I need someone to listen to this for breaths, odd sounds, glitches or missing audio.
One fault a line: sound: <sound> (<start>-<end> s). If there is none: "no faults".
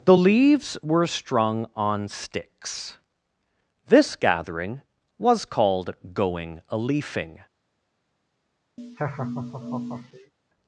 sound: laugh (8.8-10.3 s)